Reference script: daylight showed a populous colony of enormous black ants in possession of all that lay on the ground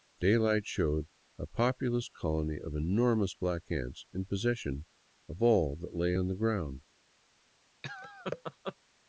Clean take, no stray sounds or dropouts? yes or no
no